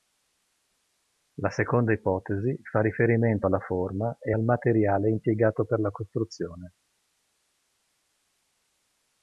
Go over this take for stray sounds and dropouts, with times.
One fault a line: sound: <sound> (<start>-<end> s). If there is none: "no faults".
no faults